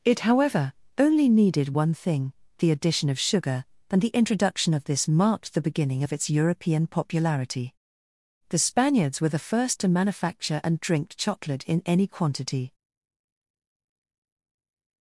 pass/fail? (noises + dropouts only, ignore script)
pass